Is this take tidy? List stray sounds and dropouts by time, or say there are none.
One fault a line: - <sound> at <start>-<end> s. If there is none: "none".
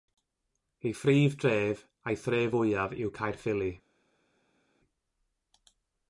none